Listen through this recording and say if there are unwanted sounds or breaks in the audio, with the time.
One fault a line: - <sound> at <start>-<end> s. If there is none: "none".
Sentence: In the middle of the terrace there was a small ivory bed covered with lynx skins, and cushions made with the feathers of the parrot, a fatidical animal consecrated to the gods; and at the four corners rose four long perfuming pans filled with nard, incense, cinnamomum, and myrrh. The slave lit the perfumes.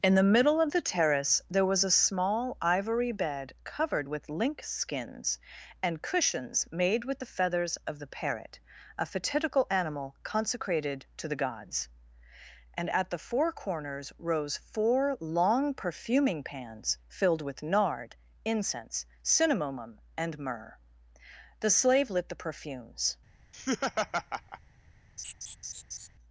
- laugh at 23.5-24.6 s
- laugh at 25.2-26.1 s